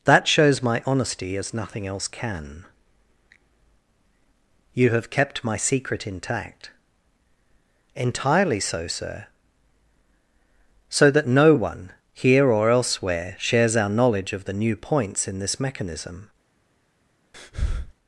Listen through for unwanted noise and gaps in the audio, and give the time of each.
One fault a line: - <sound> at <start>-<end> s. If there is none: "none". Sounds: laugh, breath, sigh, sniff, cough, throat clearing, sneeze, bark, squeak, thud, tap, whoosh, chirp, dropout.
- breath at 17.3-17.9 s